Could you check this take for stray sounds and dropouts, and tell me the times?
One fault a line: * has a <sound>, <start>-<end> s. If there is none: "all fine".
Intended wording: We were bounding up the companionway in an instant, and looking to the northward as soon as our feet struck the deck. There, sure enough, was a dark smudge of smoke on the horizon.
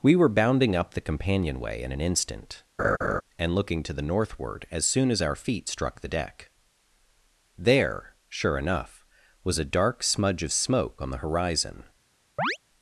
* has a laugh, 2.8-3.2 s
* has a chirp, 12.4-12.6 s